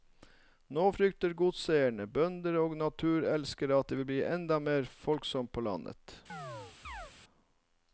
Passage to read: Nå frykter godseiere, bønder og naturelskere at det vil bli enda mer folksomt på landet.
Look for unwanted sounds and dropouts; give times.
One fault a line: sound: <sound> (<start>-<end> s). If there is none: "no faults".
sound: chirp (6.3-7.1 s)